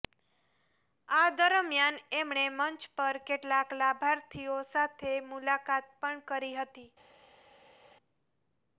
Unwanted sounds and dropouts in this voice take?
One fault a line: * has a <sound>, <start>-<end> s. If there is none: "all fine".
all fine